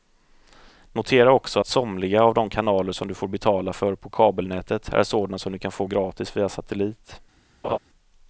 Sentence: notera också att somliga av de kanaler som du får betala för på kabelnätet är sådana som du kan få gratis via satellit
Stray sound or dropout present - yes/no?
yes